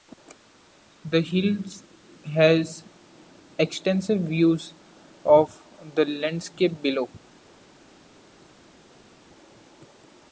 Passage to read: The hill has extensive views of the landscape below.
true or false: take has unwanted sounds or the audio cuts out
false